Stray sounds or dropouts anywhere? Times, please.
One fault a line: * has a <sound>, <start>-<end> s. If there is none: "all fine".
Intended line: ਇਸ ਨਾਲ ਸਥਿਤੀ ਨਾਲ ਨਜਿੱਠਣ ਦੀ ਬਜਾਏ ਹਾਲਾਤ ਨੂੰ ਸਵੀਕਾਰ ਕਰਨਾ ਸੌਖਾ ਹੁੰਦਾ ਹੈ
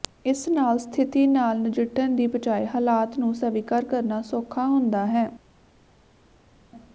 all fine